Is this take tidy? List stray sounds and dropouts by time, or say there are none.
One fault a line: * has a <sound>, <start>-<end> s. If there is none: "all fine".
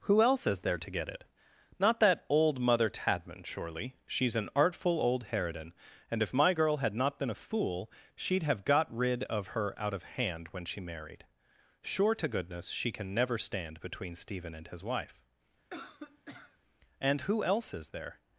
* has a cough, 15.7-16.6 s